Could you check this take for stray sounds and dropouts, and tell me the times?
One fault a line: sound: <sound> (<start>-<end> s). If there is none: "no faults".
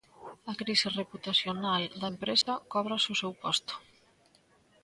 sound: dropout (2.4-2.5 s)